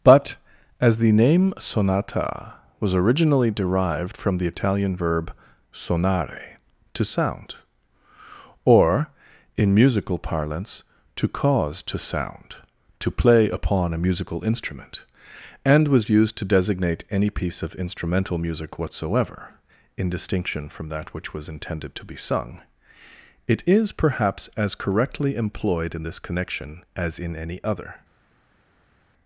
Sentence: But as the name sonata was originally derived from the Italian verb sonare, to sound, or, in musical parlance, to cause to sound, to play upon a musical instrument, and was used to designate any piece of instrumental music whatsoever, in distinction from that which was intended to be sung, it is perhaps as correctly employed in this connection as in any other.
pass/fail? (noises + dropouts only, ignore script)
pass